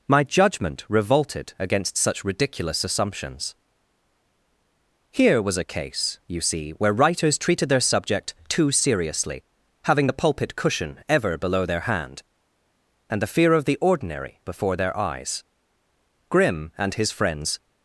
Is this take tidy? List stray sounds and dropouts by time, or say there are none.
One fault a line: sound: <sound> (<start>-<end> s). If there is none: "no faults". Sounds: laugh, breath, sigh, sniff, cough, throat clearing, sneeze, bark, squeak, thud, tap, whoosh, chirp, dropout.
no faults